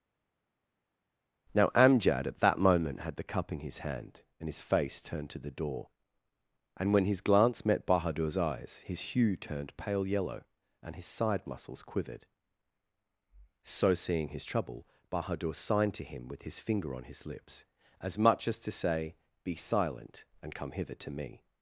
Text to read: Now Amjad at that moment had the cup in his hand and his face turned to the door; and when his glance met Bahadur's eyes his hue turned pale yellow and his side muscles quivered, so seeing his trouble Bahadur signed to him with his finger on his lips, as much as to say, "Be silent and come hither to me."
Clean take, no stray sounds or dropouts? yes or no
yes